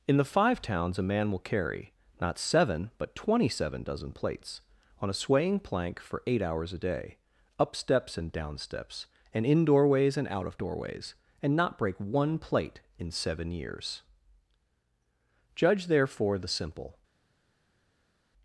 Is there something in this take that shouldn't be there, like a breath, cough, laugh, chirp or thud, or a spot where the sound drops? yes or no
no